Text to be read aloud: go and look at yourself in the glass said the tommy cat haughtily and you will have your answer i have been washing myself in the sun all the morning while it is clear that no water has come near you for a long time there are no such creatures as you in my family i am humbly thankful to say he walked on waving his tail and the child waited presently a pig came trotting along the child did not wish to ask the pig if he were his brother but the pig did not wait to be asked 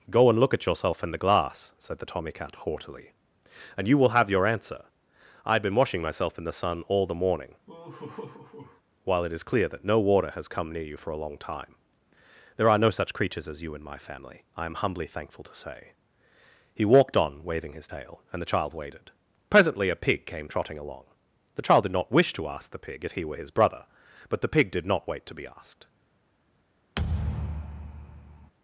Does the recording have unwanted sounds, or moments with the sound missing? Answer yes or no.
yes